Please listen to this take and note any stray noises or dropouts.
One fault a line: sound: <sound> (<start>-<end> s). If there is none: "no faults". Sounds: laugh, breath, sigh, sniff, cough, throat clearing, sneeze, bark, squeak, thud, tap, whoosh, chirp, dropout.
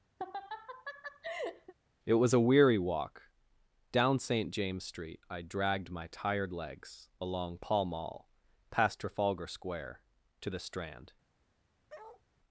sound: laugh (0.2-1.7 s)
sound: bark (11.9-12.2 s)